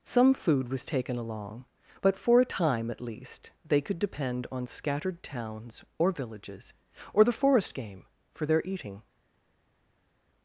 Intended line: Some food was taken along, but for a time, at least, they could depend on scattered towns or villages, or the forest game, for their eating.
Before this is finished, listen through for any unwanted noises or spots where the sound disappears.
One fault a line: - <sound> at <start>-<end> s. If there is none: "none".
none